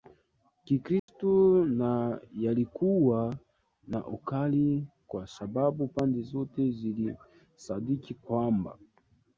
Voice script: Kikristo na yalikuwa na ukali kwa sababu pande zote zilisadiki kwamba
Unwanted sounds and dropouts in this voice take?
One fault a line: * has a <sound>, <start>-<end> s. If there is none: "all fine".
* has a dropout, 1.0-1.1 s